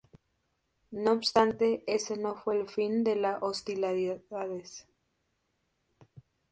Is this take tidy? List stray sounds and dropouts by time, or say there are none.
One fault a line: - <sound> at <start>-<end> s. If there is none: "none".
none